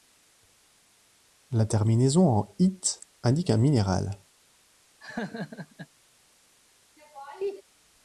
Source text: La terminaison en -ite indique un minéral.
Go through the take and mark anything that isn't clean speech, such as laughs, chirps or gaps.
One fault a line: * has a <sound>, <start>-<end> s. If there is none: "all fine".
* has a laugh, 5.0-5.9 s
* has a laugh, 7.0-7.6 s